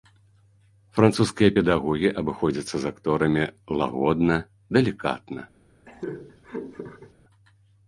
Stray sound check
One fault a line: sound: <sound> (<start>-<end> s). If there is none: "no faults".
sound: laugh (5.9-7.1 s)